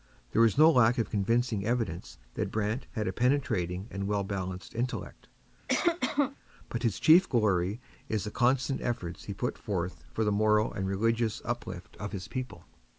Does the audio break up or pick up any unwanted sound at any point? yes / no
yes